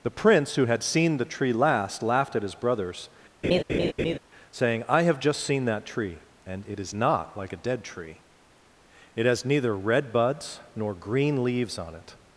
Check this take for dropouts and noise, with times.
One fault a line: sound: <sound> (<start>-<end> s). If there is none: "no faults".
sound: laugh (3.4-4.2 s)